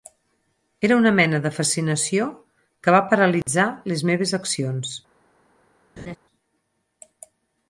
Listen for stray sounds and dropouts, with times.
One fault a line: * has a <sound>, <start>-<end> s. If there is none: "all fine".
* has a dropout, 3.4-3.5 s
* has a laugh, 6.0-6.2 s